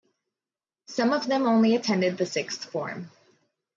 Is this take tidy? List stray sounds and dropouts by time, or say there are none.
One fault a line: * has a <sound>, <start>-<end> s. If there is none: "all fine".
all fine